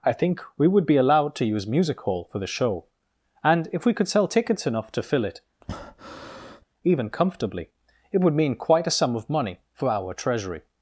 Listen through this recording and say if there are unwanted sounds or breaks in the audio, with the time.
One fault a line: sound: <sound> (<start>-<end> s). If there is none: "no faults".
sound: breath (5.6-6.6 s)